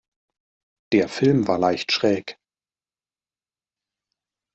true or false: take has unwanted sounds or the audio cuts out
false